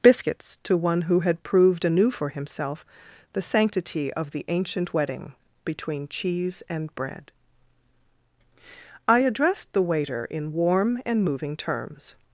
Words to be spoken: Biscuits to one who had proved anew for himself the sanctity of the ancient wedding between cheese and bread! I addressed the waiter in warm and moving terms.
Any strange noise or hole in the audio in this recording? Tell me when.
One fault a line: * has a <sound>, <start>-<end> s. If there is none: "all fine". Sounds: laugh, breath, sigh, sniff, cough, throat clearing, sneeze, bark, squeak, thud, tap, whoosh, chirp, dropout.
all fine